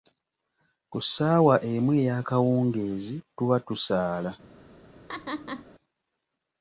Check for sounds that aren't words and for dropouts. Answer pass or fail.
fail